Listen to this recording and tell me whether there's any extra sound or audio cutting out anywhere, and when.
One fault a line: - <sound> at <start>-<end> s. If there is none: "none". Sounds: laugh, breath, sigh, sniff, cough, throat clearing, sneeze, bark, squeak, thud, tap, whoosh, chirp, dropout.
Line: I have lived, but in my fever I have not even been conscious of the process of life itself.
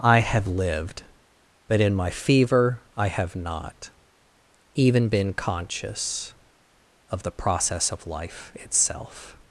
none